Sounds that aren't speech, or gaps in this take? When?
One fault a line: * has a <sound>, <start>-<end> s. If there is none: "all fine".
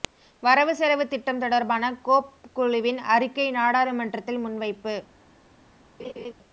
* has a laugh, 6.0-6.3 s